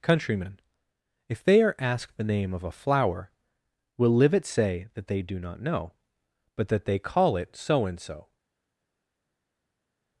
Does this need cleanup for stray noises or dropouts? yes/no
no